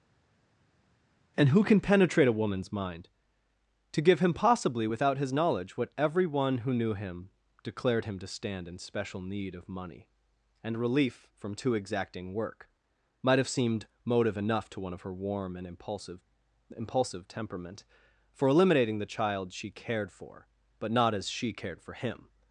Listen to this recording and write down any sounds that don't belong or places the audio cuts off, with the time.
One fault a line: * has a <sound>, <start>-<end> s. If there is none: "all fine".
all fine